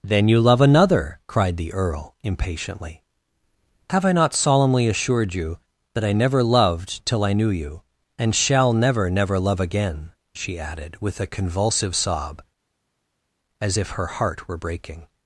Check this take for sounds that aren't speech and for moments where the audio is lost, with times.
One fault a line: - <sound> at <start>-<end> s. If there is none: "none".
none